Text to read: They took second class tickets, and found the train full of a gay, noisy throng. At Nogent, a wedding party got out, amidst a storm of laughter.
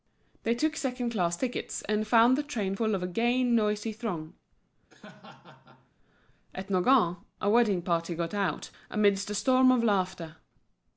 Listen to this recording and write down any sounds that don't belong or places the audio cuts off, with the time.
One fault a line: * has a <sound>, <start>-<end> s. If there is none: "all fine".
* has a laugh, 4.9-5.9 s